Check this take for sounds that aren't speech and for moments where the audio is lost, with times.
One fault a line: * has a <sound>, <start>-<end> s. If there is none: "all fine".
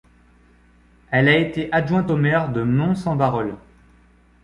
all fine